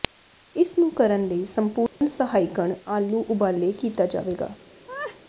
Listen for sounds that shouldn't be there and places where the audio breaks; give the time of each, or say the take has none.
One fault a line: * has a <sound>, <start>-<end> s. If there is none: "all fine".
* has a dropout, 1.9-2.0 s
* has a laugh, 4.9-5.2 s